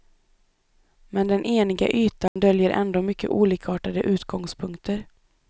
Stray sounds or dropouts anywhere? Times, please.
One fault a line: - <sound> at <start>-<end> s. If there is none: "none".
- dropout at 2.3-2.4 s